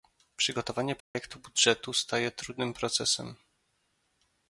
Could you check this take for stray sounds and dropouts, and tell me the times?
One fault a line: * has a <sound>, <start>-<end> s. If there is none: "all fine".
* has a dropout, 1.0-1.2 s